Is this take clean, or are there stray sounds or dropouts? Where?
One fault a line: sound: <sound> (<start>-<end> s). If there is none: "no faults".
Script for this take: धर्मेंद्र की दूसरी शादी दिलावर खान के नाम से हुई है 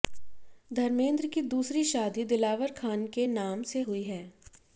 no faults